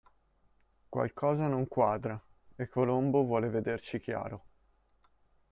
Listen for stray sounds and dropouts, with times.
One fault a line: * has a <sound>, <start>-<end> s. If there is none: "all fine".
all fine